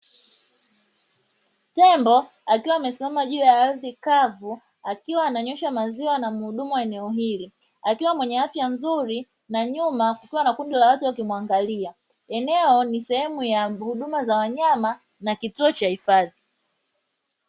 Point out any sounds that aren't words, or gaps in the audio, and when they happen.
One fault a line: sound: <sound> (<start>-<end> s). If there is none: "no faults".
no faults